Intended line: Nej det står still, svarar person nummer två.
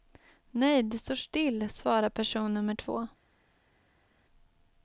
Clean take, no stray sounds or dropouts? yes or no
yes